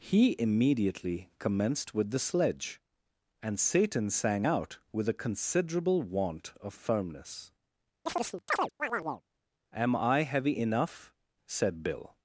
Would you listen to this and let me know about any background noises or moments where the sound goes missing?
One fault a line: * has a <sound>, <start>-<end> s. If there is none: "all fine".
* has a chirp, 8.1-9.2 s